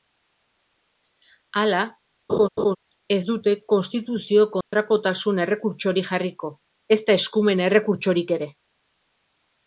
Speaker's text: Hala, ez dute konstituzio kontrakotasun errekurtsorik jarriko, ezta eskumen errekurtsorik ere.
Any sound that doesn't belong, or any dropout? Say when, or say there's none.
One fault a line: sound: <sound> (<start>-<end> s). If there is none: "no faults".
sound: laugh (2.3-2.8 s)
sound: dropout (4.6-4.7 s)